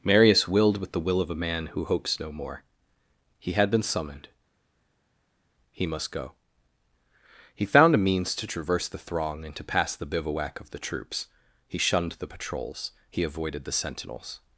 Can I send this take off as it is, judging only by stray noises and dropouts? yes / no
yes